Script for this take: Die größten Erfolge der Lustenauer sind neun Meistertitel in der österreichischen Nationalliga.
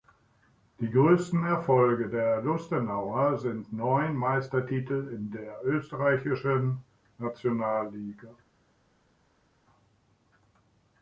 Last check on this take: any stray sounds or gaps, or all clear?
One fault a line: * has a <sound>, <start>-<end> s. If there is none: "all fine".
all fine